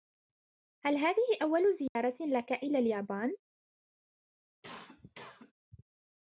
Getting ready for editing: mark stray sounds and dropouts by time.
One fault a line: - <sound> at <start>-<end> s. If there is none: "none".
- dropout at 1.9-2.0 s
- cough at 4.6-5.5 s